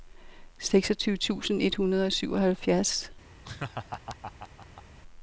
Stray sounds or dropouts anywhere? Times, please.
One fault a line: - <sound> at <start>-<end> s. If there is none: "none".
- laugh at 3.4-4.8 s